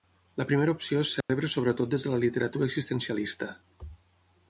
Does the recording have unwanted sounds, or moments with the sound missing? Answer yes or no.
yes